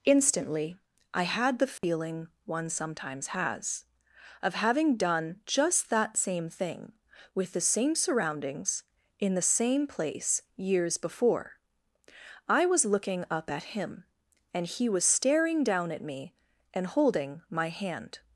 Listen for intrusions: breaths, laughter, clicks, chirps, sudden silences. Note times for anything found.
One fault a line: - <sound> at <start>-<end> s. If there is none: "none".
- dropout at 1.8-1.8 s